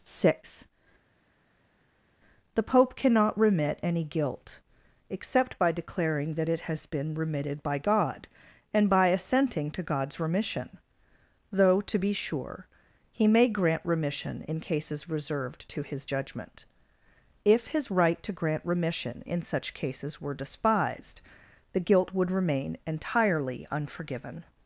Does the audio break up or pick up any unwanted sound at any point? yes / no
no